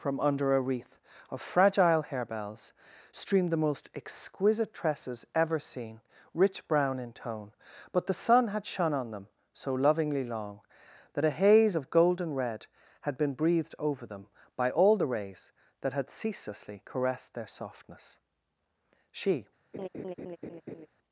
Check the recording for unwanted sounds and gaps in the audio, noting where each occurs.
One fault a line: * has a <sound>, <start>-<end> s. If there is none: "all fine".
* has a laugh, 19.7-20.9 s